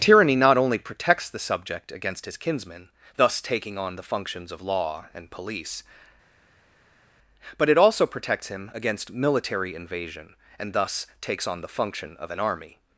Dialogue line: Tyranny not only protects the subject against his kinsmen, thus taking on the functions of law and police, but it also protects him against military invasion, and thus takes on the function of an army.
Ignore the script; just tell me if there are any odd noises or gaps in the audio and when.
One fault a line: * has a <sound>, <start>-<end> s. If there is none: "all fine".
all fine